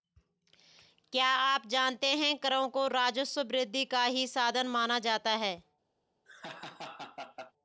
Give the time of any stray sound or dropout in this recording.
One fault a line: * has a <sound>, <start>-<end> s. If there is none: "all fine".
* has a laugh, 6.2-7.5 s